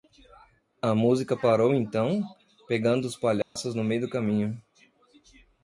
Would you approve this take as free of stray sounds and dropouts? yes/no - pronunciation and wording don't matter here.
no